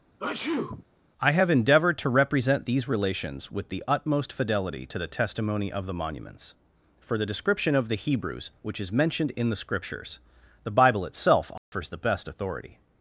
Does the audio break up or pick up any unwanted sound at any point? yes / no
yes